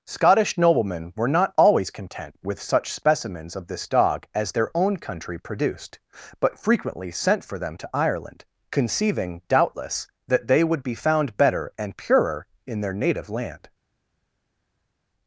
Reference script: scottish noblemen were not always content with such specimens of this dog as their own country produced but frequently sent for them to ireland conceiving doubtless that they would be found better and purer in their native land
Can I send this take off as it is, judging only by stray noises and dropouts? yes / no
yes